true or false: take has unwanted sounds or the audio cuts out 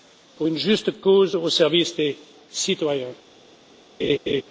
true